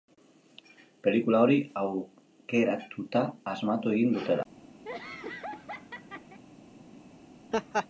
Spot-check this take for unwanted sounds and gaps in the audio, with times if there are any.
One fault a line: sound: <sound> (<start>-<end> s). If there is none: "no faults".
sound: laugh (4.8-6.4 s)
sound: laugh (7.5-7.9 s)